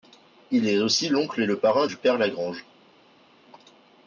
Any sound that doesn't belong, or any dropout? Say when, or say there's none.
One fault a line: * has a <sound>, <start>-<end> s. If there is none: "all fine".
all fine